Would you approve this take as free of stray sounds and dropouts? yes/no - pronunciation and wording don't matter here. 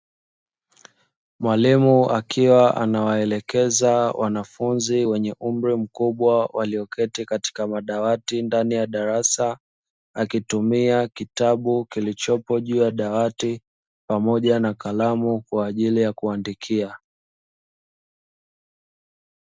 yes